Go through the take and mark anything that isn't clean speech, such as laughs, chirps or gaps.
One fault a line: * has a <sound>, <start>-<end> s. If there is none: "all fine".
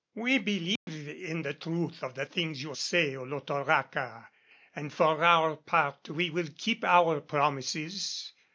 * has a dropout, 0.8-0.9 s